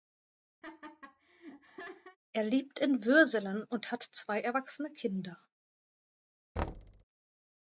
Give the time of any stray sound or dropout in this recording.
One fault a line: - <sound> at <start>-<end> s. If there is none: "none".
- laugh at 0.6-2.2 s
- thud at 6.6-7.0 s